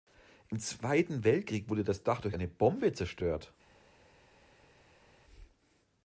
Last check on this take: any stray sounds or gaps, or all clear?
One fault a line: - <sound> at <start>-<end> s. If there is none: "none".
none